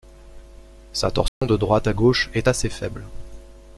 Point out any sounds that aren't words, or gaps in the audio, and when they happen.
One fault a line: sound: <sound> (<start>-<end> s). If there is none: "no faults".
sound: dropout (1.3-1.4 s)